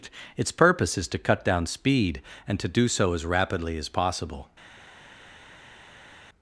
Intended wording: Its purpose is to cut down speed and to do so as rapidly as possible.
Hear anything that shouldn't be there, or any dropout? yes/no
no